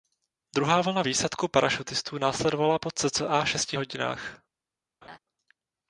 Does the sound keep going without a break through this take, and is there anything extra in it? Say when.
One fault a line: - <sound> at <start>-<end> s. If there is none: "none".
- laugh at 5.0-5.2 s